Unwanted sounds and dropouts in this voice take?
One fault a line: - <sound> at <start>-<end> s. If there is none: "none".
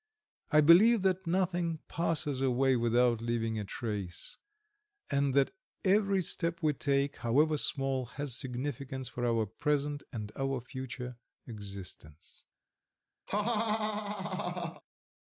- laugh at 13.3-14.8 s